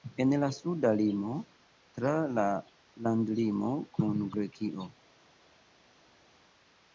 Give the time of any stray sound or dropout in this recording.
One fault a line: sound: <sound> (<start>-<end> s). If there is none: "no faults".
no faults